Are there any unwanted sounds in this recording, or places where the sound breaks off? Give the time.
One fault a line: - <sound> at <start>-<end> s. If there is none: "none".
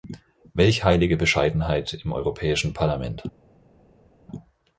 none